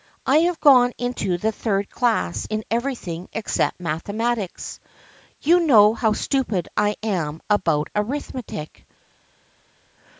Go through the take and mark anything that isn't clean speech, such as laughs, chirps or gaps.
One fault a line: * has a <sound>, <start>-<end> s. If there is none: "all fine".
all fine